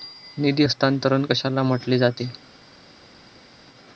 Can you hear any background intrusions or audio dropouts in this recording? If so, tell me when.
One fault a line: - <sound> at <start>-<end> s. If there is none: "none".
none